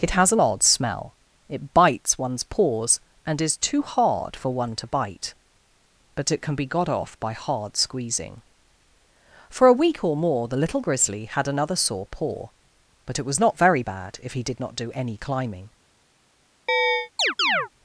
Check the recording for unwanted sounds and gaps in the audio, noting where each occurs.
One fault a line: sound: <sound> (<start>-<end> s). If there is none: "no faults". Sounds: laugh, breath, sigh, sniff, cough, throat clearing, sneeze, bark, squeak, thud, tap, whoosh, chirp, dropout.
sound: chirp (16.7-17.7 s)